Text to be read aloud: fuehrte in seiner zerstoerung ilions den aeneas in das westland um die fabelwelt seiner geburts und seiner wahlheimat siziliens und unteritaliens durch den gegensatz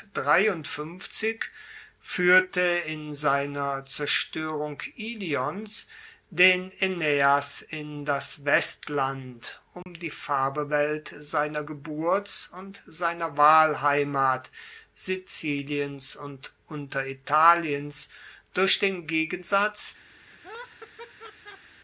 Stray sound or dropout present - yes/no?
yes